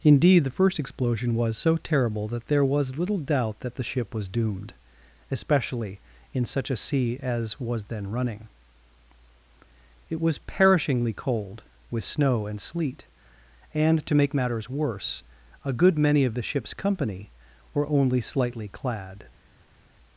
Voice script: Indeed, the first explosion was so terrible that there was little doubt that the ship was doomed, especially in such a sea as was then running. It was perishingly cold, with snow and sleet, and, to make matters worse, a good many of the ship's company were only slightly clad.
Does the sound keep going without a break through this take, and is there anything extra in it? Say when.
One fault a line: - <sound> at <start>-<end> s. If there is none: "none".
none